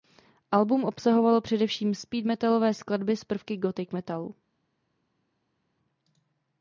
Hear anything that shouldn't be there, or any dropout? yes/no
no